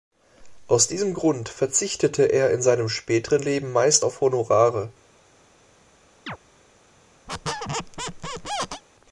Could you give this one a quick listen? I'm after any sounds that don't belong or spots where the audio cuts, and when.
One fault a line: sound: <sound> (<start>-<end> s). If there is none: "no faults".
sound: chirp (6.3-6.4 s)
sound: squeak (7.3-8.8 s)